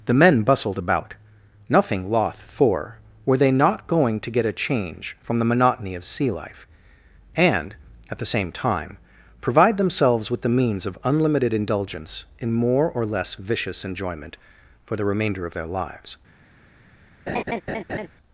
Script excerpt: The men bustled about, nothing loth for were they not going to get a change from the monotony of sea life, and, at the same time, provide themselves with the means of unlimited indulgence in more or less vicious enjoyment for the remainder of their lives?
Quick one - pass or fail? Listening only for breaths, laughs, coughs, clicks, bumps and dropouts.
fail